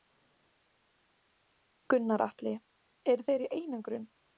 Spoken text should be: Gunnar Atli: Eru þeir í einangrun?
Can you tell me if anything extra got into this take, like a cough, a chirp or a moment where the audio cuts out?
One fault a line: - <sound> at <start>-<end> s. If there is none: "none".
none